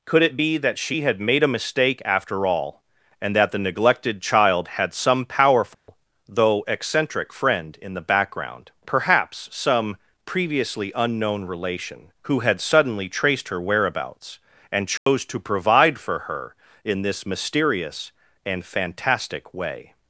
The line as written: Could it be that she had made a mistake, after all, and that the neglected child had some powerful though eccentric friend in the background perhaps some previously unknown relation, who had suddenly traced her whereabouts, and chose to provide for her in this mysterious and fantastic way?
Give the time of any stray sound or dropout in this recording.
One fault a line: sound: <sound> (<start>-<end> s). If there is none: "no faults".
sound: dropout (5.7-5.9 s)
sound: dropout (15.0-15.1 s)